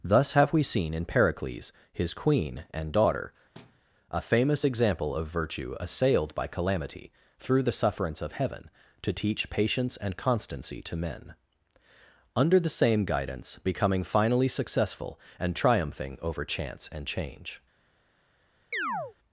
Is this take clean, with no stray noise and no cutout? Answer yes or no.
no